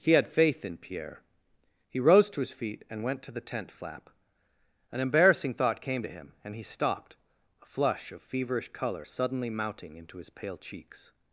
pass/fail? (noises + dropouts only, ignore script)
pass